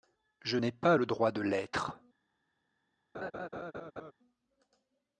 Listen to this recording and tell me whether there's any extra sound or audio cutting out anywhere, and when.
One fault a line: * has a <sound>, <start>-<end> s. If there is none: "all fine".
* has a laugh, 3.1-4.1 s